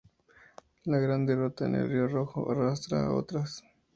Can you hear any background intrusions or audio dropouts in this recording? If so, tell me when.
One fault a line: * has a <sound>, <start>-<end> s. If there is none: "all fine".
all fine